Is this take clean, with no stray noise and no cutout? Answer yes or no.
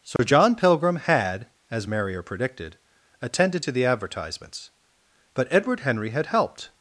no